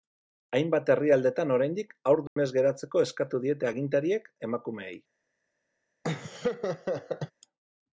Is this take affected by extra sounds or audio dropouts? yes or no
yes